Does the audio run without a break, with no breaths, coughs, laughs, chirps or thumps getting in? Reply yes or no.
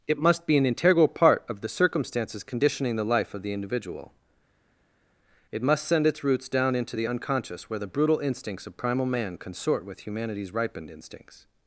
yes